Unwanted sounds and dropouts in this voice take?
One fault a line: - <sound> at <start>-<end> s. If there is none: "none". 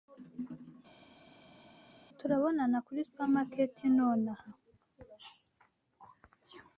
none